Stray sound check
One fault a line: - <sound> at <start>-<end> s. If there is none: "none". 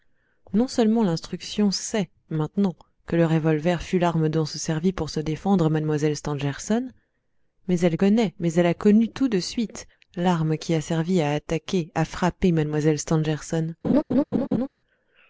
- laugh at 13.8-14.7 s